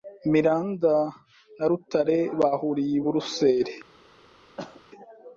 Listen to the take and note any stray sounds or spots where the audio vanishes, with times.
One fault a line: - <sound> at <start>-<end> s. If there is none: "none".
- cough at 4.6-4.8 s